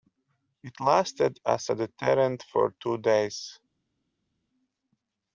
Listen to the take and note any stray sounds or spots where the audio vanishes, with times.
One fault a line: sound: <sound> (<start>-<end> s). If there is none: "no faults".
no faults